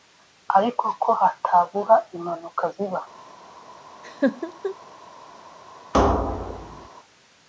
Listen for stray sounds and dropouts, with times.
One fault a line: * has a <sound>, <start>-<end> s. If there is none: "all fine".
* has a laugh, 4.0-4.8 s
* has a thud, 5.9-6.9 s